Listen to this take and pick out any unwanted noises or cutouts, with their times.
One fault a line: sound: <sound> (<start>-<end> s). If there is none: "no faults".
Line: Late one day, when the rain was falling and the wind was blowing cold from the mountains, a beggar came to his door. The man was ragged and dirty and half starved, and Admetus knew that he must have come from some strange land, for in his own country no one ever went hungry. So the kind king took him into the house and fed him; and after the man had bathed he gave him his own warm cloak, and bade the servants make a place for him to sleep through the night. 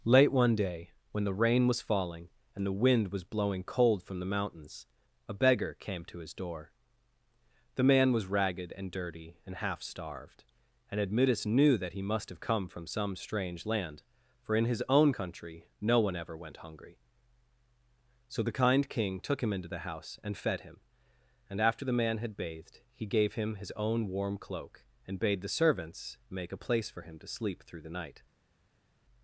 no faults